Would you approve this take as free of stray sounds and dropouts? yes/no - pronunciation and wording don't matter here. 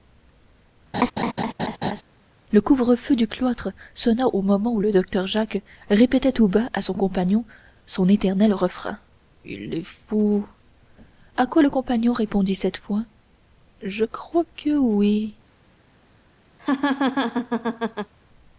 no